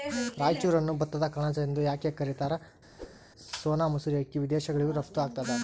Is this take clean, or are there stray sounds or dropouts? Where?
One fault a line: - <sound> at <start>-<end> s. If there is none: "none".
- whoosh at 3.0-3.2 s